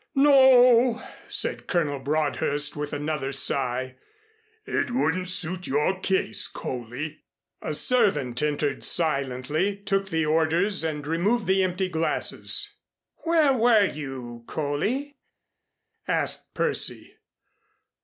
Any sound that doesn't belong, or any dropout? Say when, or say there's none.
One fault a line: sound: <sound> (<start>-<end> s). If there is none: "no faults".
no faults